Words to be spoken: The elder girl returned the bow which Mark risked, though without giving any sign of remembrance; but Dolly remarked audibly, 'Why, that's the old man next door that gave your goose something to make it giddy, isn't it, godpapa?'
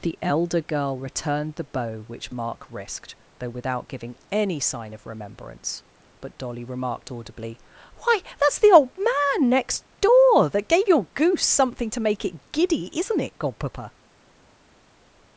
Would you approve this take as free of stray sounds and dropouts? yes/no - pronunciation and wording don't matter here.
yes